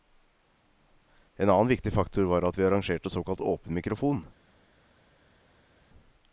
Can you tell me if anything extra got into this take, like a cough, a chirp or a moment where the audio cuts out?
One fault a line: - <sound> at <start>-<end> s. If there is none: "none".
none